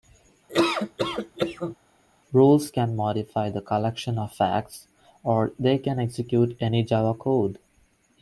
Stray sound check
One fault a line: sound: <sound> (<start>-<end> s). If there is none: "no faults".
sound: laugh (0.5-1.8 s)